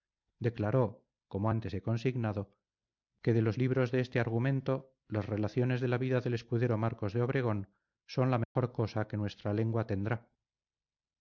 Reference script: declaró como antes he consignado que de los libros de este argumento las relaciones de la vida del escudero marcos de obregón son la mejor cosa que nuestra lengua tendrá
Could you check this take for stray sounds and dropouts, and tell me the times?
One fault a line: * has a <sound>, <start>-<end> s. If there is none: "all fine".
* has a dropout, 8.4-8.6 s